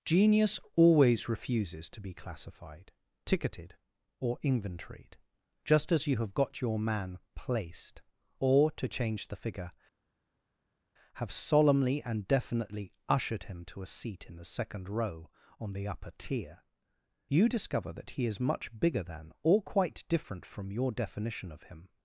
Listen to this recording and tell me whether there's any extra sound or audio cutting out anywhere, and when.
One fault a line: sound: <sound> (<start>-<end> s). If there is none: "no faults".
no faults